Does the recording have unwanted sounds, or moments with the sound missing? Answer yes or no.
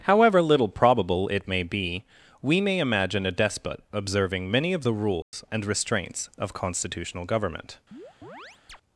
yes